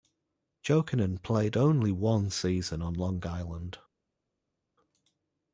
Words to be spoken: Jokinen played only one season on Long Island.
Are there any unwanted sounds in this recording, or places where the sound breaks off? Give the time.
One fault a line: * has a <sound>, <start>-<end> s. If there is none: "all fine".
all fine